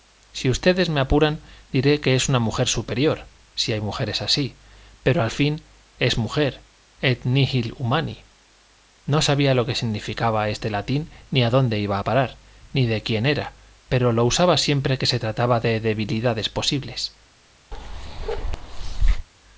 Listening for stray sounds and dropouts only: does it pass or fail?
fail